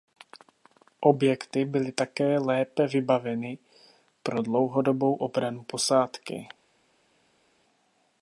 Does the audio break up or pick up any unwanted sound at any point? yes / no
no